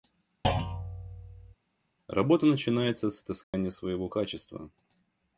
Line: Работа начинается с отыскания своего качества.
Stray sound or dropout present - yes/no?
yes